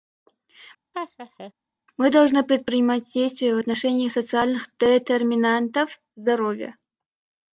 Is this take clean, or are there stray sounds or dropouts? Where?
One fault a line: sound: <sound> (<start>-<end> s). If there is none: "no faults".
sound: laugh (0.9-1.5 s)